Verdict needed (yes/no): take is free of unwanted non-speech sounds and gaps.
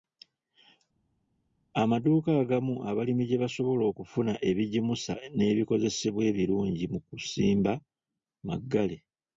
yes